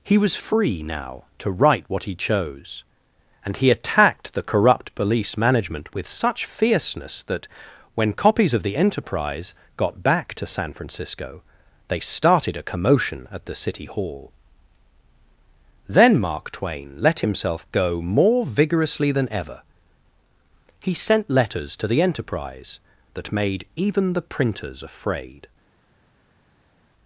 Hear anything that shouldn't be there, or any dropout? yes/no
no